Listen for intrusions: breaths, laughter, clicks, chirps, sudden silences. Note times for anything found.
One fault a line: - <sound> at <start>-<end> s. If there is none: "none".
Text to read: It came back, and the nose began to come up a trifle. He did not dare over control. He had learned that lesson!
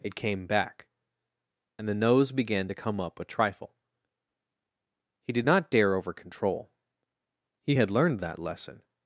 none